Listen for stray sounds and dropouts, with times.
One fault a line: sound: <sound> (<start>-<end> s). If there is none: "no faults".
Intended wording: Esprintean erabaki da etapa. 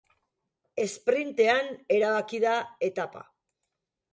no faults